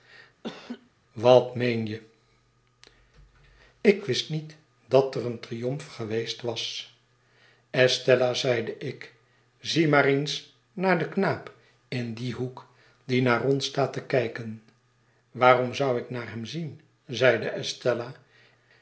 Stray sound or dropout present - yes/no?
yes